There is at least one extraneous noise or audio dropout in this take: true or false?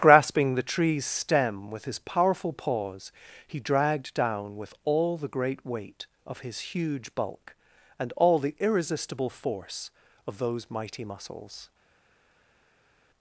false